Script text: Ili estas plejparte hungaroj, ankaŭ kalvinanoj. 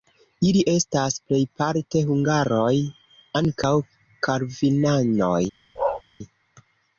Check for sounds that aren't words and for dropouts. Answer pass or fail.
fail